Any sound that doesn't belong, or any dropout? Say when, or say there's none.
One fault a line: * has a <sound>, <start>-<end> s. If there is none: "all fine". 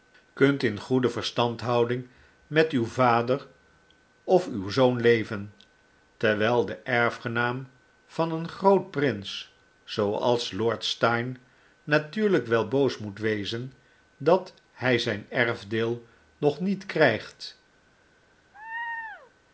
* has a laugh, 18.5-19.3 s